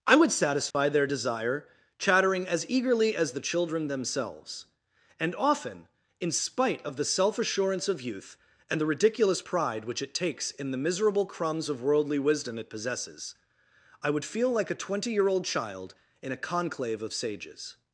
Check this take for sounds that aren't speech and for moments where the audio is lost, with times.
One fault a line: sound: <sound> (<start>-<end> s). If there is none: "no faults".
sound: dropout (0.7-0.7 s)